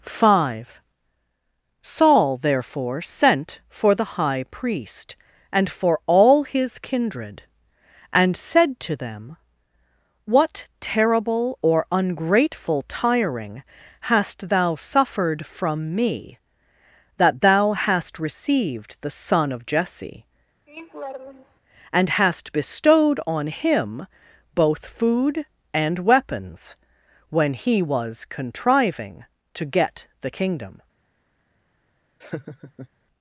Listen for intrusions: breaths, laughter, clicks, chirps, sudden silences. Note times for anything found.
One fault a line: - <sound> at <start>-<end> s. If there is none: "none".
- laugh at 20.7-21.6 s
- laugh at 32.2-32.9 s